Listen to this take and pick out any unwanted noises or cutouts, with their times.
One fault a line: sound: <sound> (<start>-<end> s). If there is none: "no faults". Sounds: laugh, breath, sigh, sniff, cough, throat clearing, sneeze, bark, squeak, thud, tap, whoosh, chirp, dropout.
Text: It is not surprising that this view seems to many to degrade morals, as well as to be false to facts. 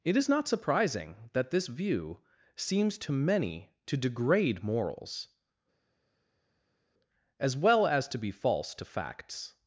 no faults